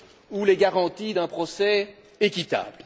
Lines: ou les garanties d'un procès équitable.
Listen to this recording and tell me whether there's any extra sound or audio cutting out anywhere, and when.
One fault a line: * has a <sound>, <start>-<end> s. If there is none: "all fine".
all fine